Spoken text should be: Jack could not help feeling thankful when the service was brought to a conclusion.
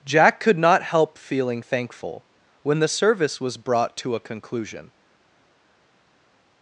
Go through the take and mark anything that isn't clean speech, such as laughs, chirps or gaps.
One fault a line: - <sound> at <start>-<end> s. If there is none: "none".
none